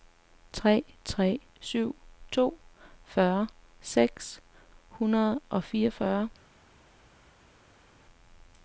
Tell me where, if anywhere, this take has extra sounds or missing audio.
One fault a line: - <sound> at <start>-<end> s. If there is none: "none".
none